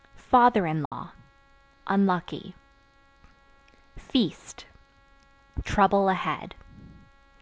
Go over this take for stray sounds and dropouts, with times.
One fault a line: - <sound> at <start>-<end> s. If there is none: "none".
- dropout at 0.9-0.9 s